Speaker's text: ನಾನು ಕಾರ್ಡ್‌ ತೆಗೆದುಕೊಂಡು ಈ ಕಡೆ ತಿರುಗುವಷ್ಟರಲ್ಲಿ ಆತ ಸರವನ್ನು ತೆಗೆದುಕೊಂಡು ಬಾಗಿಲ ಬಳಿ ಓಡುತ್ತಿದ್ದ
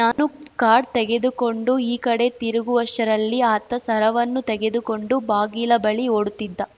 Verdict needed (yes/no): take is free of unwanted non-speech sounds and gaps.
no